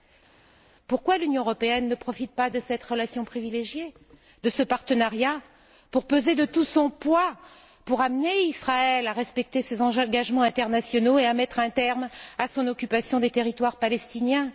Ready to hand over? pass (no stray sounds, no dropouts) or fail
pass